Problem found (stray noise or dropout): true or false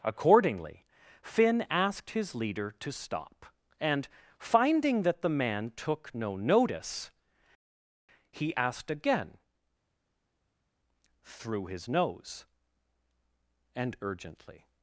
false